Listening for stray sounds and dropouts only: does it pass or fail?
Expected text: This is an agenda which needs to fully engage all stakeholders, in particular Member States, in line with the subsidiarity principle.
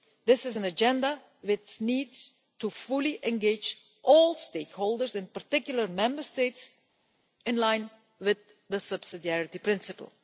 pass